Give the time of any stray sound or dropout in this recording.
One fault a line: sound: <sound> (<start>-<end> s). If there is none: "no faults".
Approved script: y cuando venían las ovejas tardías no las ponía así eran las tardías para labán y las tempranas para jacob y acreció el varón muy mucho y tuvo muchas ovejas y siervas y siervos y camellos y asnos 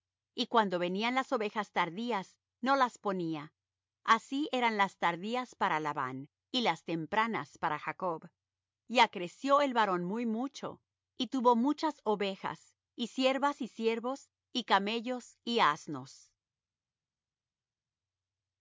no faults